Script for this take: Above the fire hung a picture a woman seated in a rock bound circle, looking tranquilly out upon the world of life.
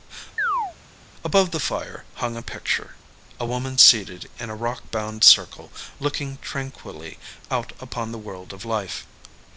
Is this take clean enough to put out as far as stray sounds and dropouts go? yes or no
no